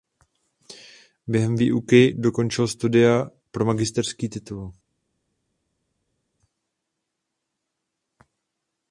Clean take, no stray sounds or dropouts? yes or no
yes